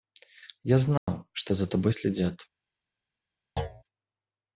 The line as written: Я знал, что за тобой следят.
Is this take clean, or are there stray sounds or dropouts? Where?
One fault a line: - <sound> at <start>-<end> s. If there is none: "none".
- dropout at 1.0-1.1 s
- thud at 3.6-3.8 s